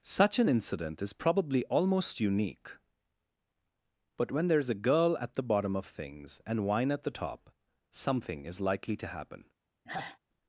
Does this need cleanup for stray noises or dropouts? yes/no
yes